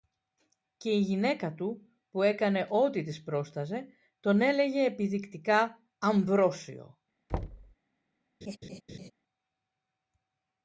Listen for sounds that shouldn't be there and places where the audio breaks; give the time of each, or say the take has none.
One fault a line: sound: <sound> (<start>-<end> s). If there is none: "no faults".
sound: thud (7.3-7.7 s)
sound: laugh (8.4-9.1 s)